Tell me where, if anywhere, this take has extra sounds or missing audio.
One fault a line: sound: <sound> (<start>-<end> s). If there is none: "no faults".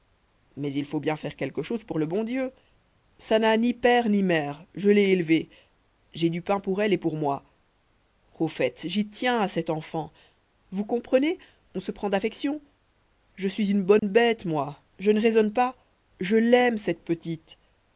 sound: dropout (14.0-14.0 s)